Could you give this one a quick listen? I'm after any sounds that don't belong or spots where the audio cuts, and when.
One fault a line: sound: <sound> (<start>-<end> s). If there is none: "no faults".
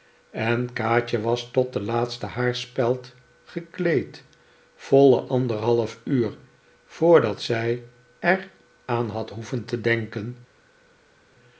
no faults